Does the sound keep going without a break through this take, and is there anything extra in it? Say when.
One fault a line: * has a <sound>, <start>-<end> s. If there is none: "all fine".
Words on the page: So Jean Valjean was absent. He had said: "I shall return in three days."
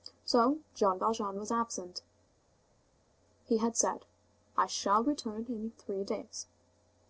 all fine